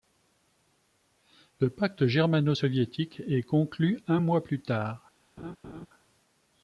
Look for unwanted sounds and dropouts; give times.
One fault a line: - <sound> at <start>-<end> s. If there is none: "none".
- laugh at 5.4-5.9 s